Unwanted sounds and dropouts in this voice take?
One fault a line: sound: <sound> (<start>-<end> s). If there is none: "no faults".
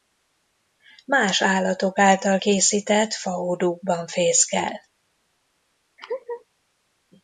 sound: laugh (6.0-6.4 s)